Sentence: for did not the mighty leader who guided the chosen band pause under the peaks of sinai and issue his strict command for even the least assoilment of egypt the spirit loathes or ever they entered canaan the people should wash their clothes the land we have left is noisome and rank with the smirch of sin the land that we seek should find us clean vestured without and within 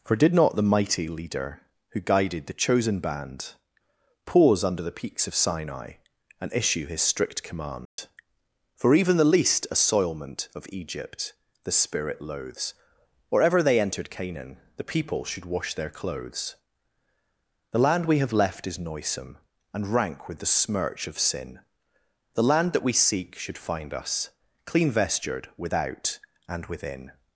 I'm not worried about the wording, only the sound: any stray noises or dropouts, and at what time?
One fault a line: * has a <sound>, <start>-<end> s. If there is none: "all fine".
* has a dropout, 7.9-8.0 s